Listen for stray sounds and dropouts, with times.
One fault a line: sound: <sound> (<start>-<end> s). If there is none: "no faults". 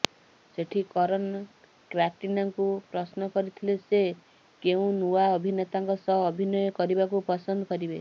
no faults